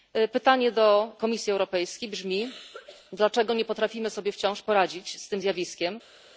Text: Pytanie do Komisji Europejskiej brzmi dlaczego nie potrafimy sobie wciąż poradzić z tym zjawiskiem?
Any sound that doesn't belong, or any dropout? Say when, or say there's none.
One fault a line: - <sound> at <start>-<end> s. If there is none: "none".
none